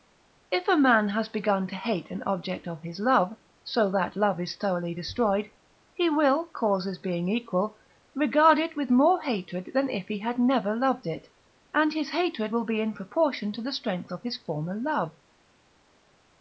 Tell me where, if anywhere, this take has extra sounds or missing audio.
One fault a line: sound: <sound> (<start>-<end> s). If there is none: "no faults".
no faults